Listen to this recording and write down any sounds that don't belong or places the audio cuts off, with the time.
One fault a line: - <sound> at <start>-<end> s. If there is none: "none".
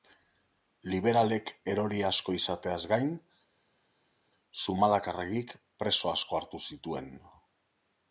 none